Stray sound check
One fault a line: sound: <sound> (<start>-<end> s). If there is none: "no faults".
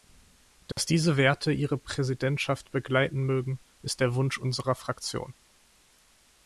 sound: dropout (0.7-0.8 s)